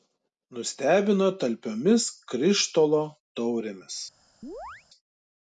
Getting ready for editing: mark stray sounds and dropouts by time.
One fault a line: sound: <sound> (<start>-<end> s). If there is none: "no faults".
sound: chirp (4.4-4.9 s)